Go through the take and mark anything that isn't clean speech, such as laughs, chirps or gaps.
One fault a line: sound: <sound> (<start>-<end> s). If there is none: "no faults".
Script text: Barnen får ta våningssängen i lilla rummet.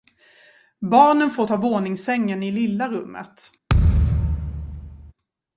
sound: thud (3.7-5.1 s)